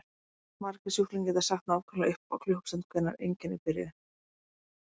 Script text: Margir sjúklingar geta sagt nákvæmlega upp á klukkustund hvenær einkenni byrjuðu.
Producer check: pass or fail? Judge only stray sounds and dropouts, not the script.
pass